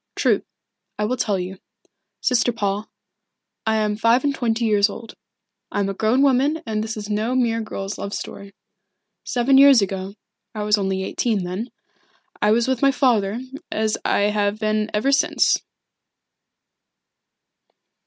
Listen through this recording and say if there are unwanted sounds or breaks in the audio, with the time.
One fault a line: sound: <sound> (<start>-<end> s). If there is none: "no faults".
no faults